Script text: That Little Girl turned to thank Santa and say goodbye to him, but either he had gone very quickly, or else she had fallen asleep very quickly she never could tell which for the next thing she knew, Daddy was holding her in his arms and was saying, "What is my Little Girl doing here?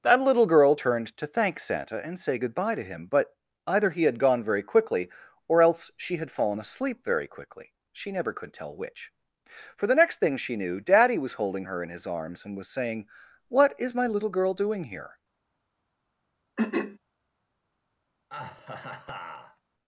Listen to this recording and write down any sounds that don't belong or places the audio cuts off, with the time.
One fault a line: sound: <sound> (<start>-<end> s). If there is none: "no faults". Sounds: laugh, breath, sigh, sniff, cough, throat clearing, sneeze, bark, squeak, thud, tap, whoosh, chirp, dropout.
sound: throat clearing (16.6-17.0 s)
sound: laugh (18.3-19.6 s)